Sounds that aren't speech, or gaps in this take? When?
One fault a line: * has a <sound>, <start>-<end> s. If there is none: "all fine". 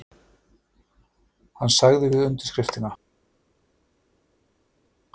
all fine